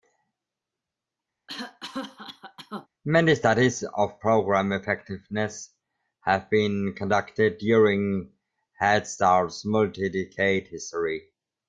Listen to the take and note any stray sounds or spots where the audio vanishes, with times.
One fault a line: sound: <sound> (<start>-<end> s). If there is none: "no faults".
sound: cough (1.5-2.9 s)